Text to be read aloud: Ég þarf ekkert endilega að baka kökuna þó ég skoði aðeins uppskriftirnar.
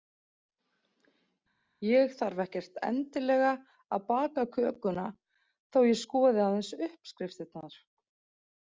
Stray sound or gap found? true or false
false